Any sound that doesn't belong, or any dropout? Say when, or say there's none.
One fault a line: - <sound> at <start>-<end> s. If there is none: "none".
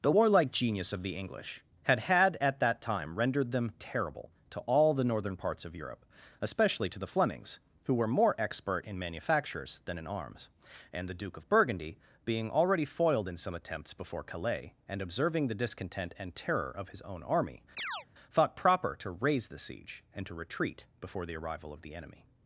- chirp at 17.8-18.1 s